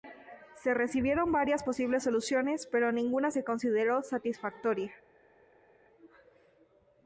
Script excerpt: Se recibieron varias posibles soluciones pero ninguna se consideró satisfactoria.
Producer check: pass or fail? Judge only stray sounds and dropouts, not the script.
pass